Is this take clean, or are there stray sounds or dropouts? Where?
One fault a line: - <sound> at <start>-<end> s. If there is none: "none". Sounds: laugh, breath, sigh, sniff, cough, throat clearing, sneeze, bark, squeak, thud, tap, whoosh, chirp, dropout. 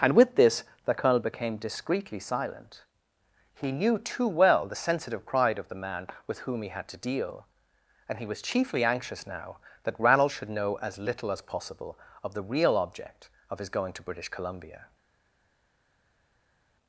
none